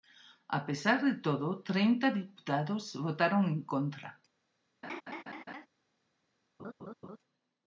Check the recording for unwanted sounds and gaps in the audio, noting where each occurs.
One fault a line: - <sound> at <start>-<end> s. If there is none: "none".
- laugh at 4.8-5.7 s
- laugh at 6.6-7.2 s